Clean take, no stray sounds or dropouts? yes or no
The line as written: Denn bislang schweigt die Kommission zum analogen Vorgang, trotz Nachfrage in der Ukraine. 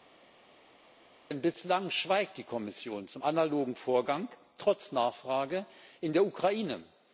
yes